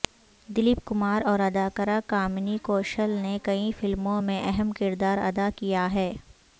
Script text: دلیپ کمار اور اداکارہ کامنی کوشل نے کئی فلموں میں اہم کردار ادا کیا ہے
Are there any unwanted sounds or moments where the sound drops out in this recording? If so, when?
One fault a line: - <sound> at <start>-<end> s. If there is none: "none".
none